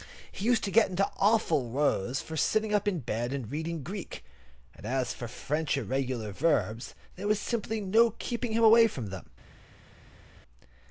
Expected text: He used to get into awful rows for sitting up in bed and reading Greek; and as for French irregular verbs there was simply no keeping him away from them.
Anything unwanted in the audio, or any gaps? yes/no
no